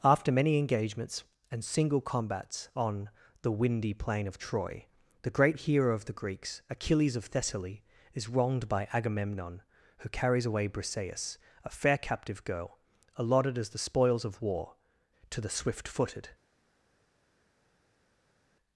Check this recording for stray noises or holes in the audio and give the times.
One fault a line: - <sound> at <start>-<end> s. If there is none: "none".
none